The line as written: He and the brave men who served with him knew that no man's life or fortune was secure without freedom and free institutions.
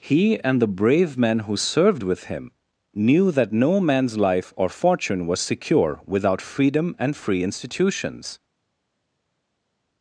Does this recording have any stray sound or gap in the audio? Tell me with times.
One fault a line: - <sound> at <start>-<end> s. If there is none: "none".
none